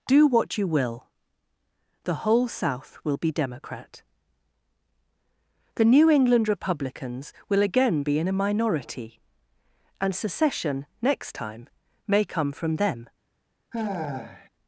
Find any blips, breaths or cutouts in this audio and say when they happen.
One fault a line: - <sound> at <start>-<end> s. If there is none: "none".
- sigh at 13.7-14.5 s